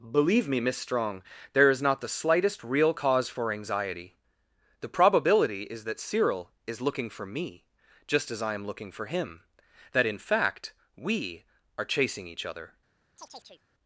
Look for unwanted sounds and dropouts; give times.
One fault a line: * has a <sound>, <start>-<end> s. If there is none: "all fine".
* has a chirp, 13.2-13.6 s